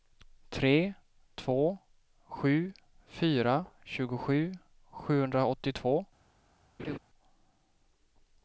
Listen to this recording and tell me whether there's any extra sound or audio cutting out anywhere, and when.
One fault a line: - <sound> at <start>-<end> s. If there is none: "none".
- laugh at 6.8-7.0 s